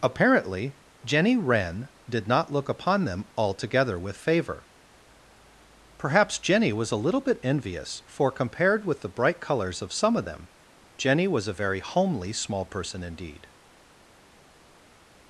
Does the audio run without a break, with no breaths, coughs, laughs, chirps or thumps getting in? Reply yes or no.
yes